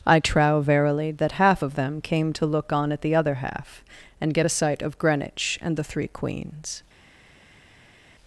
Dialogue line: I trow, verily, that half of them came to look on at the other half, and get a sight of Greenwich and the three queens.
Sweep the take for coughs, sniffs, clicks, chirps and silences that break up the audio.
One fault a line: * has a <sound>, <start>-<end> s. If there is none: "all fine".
all fine